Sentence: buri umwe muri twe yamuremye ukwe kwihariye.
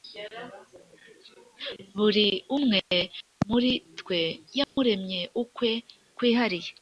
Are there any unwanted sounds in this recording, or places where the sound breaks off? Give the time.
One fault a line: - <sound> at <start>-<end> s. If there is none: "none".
- dropout at 4.6-4.8 s